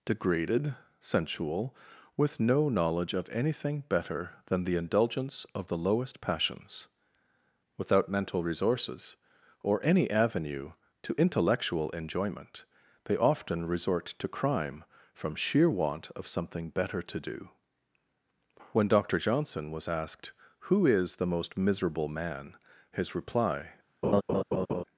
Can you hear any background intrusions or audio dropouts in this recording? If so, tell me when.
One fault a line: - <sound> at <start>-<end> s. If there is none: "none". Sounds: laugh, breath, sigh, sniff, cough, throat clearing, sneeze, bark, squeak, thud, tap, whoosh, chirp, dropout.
- laugh at 24.0-24.8 s